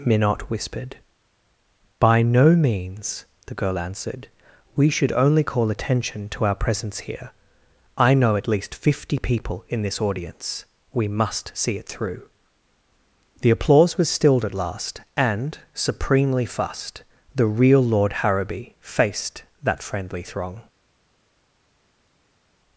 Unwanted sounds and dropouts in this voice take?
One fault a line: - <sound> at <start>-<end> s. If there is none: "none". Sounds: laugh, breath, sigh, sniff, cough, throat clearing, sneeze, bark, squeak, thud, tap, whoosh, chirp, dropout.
none